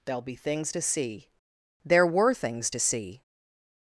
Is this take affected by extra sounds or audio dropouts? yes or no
no